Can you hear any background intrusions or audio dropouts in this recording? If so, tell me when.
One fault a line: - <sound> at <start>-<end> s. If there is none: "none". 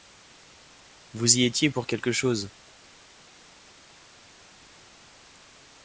none